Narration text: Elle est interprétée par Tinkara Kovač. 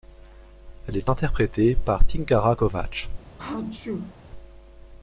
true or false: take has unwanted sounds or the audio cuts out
true